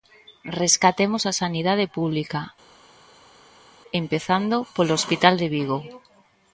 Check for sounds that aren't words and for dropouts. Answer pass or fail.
pass